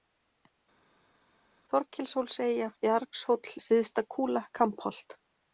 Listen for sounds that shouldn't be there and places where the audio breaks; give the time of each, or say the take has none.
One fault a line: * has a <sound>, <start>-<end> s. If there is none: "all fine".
all fine